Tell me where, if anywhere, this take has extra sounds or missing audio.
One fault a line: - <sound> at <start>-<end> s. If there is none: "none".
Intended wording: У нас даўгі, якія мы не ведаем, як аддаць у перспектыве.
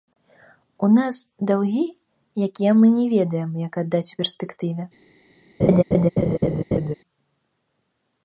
- laugh at 5.6-7.0 s